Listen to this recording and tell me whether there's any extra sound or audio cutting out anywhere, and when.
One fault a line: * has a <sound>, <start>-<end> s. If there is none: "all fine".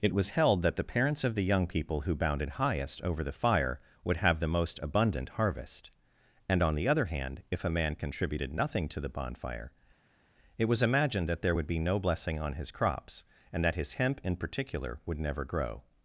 all fine